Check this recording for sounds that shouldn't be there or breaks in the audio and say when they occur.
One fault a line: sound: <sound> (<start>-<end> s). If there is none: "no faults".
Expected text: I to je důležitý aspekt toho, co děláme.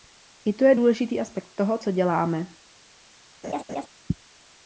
sound: laugh (3.4-3.9 s)